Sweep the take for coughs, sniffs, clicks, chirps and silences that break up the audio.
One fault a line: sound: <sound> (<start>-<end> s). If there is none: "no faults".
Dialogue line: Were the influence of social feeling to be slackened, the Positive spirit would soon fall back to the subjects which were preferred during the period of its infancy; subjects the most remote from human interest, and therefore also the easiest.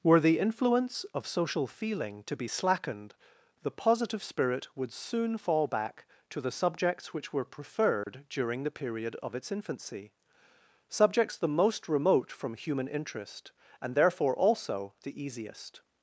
sound: dropout (8.0-8.1 s)